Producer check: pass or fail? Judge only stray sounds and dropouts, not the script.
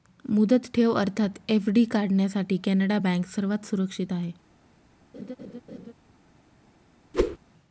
fail